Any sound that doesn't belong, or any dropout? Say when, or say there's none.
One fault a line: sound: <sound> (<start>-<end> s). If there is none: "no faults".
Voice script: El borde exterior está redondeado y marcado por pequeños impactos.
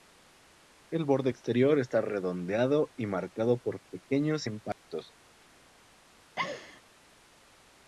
sound: dropout (4.7-4.9 s)
sound: laugh (6.4-6.8 s)